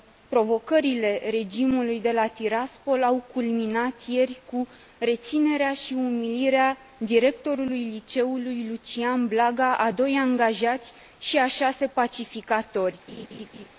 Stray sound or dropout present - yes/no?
yes